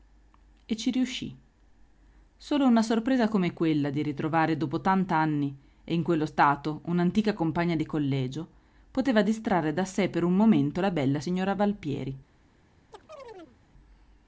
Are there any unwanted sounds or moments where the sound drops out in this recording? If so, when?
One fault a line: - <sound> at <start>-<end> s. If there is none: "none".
- chirp at 12.9-13.6 s